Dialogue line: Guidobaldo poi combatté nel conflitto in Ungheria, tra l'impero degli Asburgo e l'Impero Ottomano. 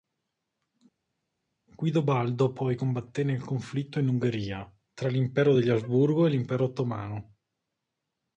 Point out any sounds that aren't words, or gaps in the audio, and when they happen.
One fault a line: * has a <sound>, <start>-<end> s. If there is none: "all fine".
all fine